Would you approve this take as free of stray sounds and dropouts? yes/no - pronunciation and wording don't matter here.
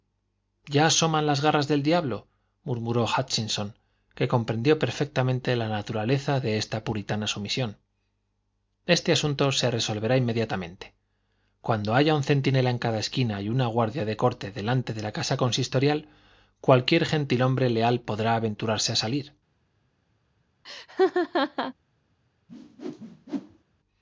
no